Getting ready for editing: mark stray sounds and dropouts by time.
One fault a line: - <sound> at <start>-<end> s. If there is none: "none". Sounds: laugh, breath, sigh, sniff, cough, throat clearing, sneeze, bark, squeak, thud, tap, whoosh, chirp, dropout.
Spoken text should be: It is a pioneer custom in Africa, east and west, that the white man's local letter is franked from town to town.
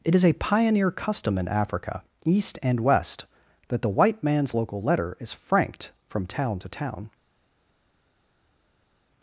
none